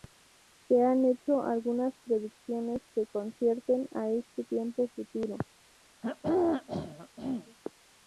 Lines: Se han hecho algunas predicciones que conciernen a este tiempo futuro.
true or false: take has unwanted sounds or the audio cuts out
true